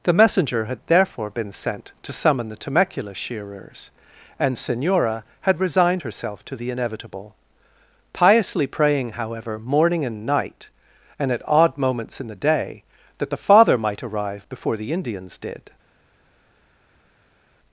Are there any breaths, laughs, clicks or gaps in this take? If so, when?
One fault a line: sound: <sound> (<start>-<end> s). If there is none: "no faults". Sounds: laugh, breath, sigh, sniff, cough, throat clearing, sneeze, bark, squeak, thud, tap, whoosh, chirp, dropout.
no faults